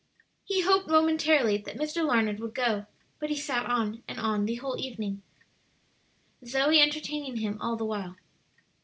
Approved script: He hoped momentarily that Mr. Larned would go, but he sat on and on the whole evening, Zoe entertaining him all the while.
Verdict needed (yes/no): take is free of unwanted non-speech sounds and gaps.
yes